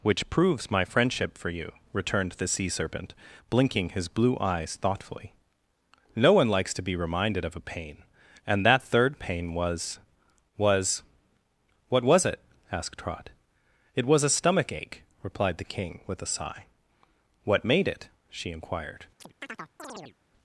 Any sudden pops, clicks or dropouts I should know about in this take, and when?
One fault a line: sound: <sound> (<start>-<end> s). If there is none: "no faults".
sound: chirp (19.2-20.2 s)